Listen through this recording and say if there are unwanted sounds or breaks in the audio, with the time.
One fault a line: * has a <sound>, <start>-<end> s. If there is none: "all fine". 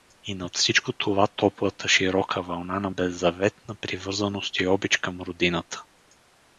all fine